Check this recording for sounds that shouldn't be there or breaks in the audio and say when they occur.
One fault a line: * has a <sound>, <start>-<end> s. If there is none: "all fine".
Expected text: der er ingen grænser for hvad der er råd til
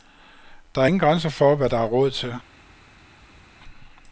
all fine